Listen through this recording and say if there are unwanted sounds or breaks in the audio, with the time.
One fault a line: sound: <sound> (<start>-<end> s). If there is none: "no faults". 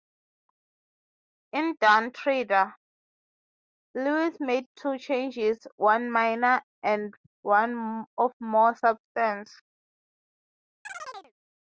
sound: chirp (10.8-11.3 s)